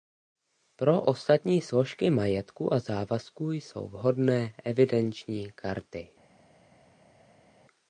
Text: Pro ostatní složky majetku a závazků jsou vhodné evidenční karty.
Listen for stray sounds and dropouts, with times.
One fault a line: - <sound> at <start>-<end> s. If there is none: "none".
none